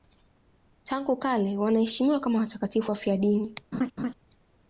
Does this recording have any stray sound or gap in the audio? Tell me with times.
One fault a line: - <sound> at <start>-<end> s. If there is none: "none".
- laugh at 3.7-4.1 s